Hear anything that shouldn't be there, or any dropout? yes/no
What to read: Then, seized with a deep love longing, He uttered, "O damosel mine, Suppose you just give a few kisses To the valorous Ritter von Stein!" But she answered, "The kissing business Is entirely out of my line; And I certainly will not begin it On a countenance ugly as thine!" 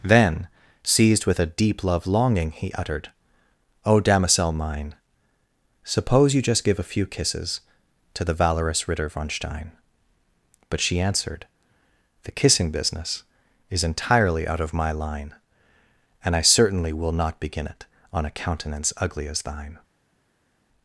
no